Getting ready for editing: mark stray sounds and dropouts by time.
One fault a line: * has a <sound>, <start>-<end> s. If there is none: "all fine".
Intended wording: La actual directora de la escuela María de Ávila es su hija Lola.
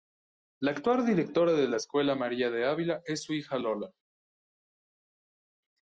all fine